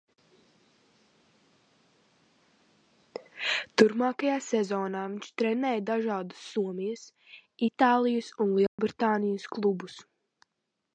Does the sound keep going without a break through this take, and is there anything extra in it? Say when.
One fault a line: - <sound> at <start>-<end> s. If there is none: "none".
- dropout at 8.7-8.8 s